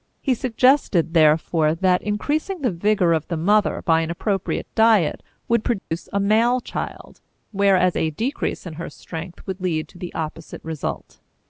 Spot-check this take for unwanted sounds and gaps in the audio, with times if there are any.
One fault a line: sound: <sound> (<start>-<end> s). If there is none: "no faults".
sound: dropout (5.8-5.9 s)